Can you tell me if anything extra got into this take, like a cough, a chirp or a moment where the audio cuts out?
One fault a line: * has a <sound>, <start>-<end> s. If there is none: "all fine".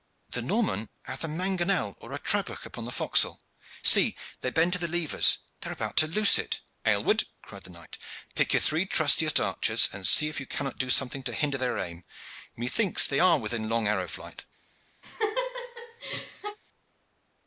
* has a laugh, 15.0-16.6 s